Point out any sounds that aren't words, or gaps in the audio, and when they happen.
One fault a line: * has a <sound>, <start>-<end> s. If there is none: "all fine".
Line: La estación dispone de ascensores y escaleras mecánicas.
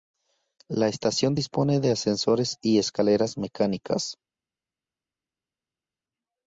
all fine